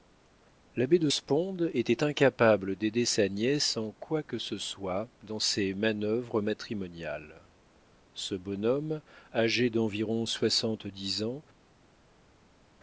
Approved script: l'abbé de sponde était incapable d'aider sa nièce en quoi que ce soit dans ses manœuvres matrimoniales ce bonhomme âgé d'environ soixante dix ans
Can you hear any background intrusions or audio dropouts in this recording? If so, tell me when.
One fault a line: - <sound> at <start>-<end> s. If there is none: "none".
none